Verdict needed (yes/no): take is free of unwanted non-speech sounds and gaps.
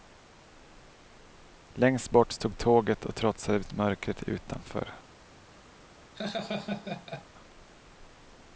no